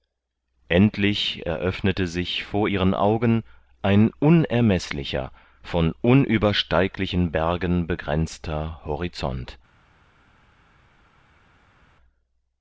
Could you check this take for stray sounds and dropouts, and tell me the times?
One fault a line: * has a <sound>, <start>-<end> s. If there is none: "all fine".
all fine